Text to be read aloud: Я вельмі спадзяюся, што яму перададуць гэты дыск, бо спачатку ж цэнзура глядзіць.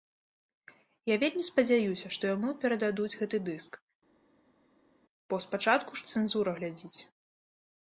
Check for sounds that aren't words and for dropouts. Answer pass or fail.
pass